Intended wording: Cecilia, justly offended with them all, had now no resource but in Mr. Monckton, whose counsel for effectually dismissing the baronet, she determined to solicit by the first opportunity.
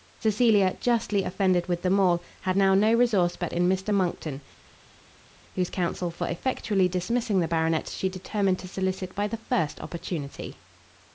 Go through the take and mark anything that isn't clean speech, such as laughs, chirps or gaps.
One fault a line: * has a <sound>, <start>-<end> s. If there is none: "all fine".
all fine